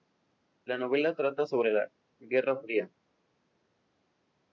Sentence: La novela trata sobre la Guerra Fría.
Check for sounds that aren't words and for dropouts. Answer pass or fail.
pass